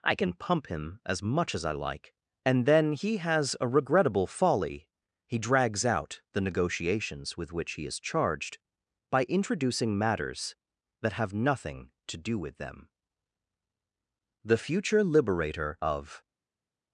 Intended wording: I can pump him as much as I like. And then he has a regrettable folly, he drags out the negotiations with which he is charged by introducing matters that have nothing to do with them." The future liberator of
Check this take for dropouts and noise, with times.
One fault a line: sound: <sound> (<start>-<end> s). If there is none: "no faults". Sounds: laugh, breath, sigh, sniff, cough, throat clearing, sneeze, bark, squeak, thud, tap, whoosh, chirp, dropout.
no faults